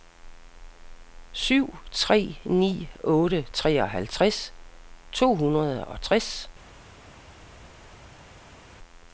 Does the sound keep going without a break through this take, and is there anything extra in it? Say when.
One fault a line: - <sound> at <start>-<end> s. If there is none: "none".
none